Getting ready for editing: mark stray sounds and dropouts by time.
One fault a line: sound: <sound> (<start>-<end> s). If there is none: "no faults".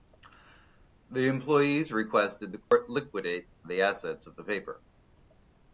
sound: dropout (2.6-2.7 s)